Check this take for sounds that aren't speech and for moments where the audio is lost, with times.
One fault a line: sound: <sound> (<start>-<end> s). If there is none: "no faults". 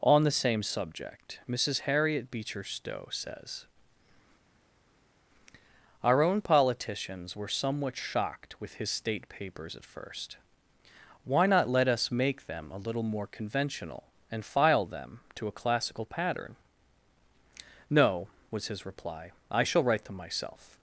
no faults